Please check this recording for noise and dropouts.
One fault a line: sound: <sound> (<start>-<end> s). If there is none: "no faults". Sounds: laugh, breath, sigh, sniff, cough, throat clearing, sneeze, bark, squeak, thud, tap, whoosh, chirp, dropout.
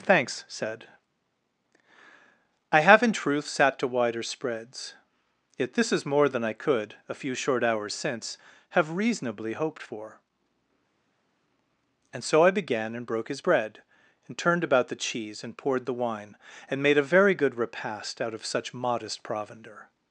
no faults